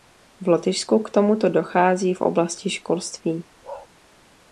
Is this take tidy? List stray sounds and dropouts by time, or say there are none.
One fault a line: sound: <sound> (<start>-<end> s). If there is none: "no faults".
sound: bark (3.6-3.9 s)